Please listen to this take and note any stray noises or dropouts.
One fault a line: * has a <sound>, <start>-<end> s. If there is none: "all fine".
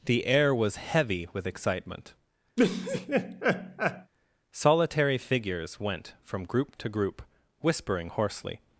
* has a laugh, 2.6-4.1 s